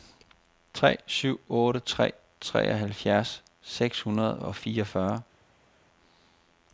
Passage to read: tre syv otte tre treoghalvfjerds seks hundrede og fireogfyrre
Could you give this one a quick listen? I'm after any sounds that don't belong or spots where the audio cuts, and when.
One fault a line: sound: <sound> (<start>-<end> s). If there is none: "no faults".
no faults